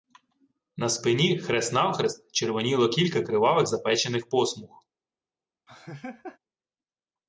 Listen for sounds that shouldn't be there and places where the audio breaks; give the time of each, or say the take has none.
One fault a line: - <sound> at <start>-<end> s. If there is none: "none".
- laugh at 5.7-6.4 s